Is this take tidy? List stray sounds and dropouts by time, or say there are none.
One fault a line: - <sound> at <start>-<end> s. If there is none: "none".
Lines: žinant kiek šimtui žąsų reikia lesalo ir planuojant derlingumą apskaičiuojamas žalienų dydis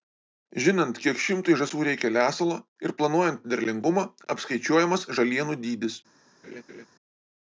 - laugh at 6.4-6.9 s